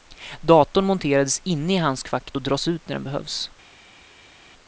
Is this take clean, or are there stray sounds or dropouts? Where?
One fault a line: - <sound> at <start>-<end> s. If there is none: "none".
none